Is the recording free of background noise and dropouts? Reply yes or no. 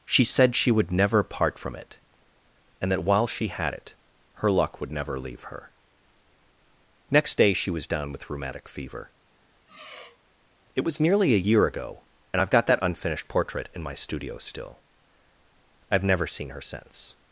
no